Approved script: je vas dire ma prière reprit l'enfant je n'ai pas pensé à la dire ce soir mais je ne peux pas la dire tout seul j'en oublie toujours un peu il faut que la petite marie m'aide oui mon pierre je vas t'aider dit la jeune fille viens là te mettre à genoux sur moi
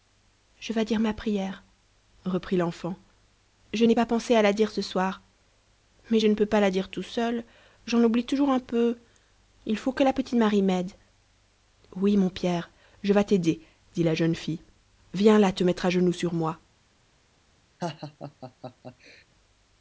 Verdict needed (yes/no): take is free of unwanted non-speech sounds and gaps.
no